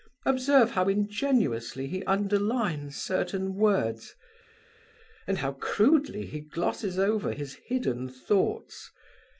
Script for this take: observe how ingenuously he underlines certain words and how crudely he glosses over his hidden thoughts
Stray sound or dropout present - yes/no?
no